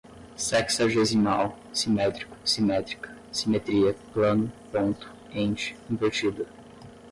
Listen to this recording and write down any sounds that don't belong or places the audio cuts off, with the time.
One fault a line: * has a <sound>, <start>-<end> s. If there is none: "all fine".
all fine